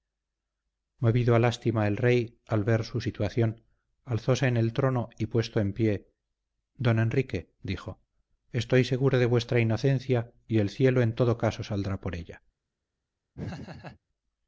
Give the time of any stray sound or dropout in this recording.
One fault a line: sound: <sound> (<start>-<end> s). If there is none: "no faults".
sound: laugh (13.3-14.0 s)